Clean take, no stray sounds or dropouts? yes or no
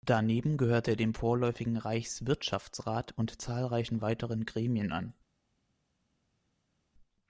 yes